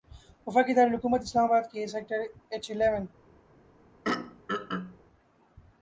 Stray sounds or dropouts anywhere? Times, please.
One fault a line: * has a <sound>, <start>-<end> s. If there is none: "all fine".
* has a throat clearing, 4.0-5.0 s